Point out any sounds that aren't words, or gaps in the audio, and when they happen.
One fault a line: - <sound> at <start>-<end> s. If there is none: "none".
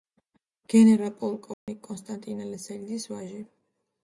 - dropout at 1.5-1.7 s